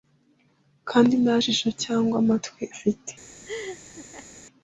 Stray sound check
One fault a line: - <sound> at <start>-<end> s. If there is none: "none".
- laugh at 3.5-4.3 s